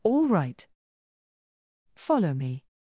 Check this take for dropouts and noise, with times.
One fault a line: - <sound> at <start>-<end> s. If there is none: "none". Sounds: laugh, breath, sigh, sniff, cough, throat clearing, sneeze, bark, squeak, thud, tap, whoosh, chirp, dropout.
none